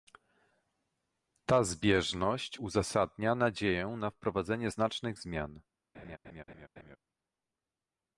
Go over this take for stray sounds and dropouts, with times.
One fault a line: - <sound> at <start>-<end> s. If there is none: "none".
- laugh at 5.9-7.0 s